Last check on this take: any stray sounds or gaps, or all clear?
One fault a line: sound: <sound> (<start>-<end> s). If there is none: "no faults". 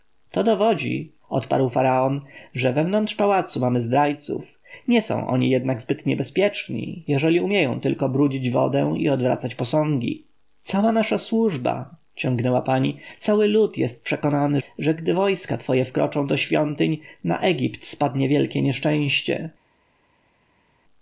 no faults